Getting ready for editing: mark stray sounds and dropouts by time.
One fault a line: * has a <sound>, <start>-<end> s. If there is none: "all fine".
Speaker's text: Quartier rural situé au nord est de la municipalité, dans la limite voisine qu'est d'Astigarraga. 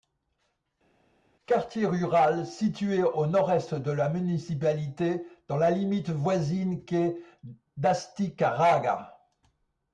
all fine